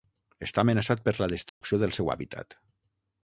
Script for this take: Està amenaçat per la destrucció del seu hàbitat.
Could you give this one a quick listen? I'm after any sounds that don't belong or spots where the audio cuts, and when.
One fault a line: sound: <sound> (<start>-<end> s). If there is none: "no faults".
sound: dropout (1.5-1.6 s)